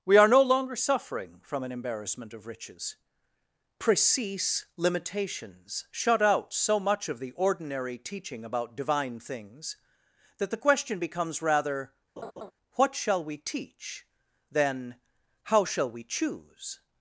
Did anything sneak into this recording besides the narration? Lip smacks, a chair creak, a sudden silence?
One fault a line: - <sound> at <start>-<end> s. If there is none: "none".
- laugh at 12.2-12.5 s